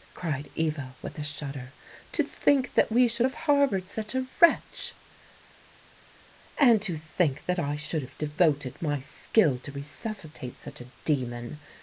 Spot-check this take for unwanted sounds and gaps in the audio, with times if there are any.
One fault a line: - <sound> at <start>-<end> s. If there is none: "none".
none